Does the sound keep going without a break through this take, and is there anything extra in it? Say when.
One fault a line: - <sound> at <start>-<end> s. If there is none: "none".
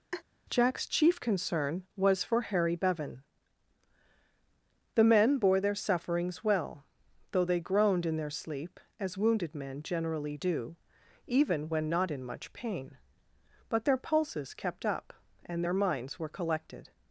- laugh at 0.1-0.2 s